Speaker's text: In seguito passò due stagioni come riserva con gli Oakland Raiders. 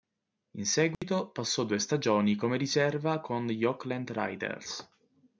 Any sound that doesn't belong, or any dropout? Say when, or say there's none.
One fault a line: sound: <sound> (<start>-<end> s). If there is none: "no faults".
sound: dropout (0.9-1.0 s)